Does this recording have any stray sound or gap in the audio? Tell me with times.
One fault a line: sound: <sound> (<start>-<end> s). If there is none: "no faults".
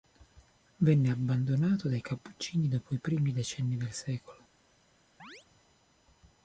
sound: chirp (5.2-5.5 s)